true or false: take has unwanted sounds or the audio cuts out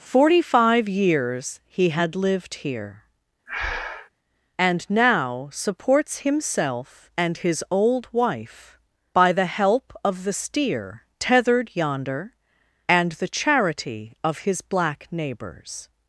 true